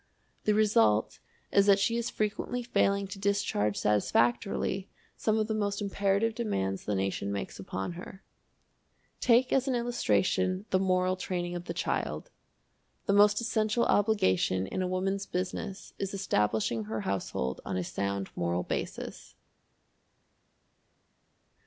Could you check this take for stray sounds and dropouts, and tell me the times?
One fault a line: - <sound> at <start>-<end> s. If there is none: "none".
none